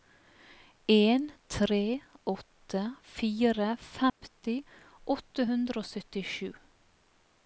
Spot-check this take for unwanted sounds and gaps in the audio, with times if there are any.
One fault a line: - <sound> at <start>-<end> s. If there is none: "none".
- dropout at 4.1-4.2 s